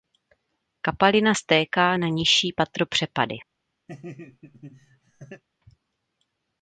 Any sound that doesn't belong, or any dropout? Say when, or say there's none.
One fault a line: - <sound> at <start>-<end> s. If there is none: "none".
- laugh at 3.9-5.4 s